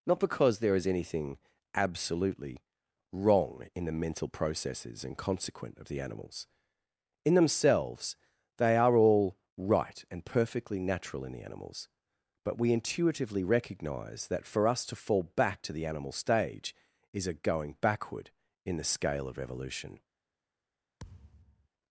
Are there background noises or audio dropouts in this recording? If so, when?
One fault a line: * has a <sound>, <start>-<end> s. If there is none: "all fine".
* has a thud, 21.0-21.7 s